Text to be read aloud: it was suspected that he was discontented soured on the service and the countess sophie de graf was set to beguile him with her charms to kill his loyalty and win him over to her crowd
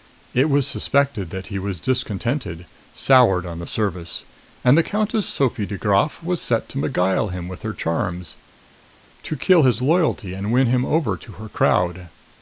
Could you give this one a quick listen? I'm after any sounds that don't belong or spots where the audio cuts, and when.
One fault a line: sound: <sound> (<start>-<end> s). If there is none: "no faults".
no faults